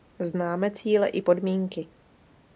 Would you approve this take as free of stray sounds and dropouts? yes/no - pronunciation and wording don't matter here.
yes